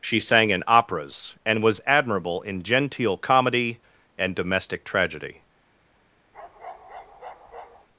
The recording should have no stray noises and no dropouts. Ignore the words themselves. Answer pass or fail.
fail